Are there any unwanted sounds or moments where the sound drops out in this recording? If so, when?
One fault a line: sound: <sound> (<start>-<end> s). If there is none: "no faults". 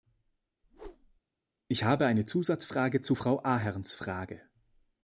sound: whoosh (0.6-1.2 s)